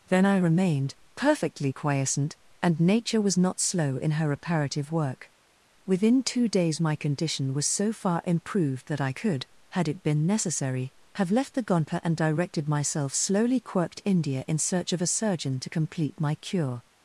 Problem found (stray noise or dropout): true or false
false